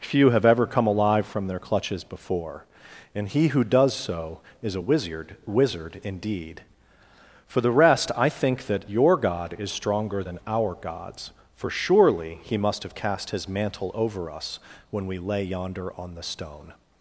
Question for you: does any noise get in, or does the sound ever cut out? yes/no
no